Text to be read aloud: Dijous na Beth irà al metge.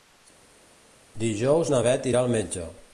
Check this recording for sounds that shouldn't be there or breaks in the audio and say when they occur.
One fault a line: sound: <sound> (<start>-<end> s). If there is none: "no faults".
no faults